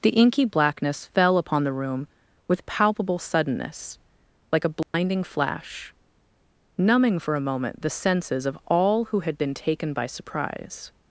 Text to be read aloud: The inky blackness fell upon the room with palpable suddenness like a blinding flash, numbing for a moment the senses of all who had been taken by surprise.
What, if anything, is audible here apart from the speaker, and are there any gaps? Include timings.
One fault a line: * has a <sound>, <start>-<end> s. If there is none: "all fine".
* has a dropout, 4.8-4.9 s